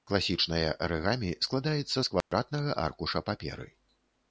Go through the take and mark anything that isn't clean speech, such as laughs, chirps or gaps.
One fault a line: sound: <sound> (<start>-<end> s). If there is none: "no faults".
sound: dropout (2.2-2.3 s)